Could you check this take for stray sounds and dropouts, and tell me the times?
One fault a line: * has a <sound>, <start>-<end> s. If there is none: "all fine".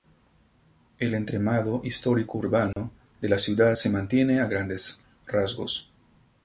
* has a dropout, 2.7-2.8 s